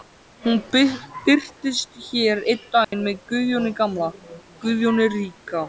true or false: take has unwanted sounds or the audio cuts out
true